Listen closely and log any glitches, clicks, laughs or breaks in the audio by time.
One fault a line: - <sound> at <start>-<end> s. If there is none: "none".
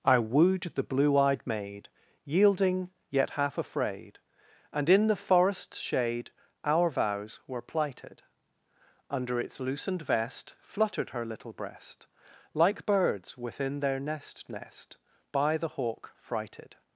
none